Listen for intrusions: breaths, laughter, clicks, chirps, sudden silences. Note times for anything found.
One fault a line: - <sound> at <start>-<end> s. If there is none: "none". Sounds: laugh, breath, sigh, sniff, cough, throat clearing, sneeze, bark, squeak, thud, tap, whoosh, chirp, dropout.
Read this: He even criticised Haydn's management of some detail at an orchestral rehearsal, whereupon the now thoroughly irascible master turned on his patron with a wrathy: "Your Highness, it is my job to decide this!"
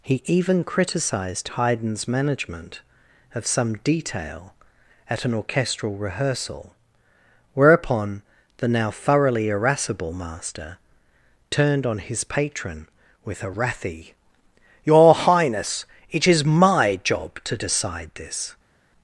none